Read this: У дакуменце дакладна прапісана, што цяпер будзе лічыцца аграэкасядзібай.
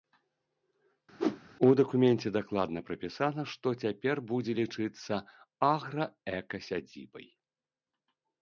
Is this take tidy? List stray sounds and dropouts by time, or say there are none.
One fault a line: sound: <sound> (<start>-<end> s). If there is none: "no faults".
sound: whoosh (1.2-1.4 s)